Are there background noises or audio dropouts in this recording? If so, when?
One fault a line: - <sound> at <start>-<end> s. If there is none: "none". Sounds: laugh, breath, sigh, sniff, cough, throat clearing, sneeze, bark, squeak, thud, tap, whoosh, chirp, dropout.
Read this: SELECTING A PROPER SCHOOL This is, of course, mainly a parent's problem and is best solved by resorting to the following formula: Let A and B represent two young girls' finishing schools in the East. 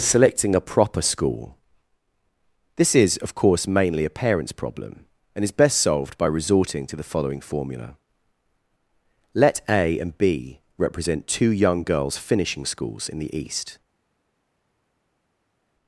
none